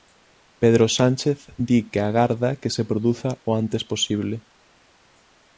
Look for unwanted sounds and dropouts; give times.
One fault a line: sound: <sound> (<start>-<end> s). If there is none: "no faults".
no faults